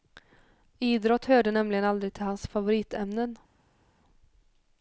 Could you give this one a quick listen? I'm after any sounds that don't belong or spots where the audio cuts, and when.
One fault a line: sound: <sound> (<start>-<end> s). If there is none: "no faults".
no faults